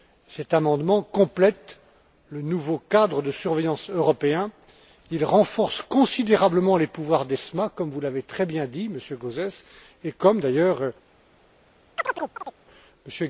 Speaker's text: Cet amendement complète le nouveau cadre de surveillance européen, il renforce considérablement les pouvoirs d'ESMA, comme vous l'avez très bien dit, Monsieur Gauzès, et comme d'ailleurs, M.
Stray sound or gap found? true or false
true